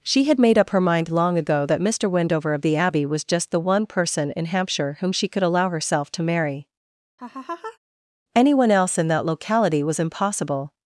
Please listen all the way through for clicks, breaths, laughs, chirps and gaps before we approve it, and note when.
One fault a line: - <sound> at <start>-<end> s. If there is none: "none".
- laugh at 7.2-7.8 s